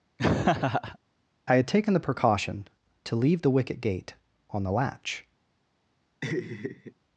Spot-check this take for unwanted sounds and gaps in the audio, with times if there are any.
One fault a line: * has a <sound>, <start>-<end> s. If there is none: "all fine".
* has a laugh, 0.2-1.0 s
* has a laugh, 6.2-6.9 s